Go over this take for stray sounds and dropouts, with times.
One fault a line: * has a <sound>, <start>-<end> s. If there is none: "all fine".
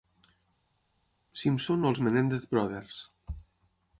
all fine